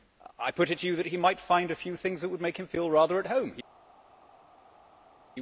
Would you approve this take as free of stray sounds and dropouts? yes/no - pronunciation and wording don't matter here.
yes